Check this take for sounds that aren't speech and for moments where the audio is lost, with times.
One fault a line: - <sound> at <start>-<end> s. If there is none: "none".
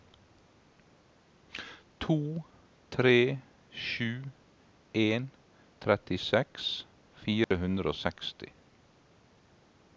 - dropout at 7.4-7.5 s